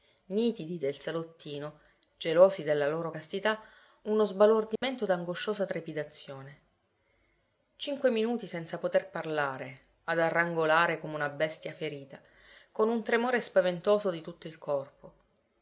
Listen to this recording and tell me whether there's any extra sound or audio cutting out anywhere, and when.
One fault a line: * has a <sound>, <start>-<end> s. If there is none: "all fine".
* has a dropout, 4.8-4.8 s